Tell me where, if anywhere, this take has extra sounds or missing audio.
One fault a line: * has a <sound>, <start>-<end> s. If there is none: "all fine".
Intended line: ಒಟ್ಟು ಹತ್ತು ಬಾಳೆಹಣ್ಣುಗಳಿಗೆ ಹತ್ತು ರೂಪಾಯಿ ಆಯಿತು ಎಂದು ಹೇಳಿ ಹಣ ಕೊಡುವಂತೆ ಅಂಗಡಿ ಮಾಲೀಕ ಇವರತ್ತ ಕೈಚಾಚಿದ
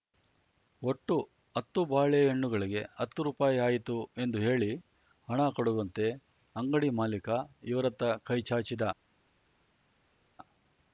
all fine